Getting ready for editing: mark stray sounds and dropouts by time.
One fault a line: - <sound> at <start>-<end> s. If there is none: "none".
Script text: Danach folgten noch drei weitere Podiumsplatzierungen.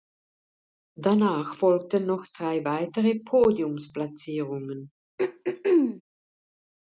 - throat clearing at 5.2-6.0 s